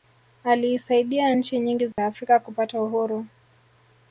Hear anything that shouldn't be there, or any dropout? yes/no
yes